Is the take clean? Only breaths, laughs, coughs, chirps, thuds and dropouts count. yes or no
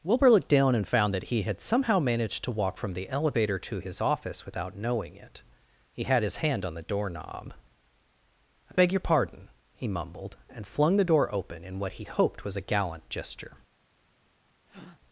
no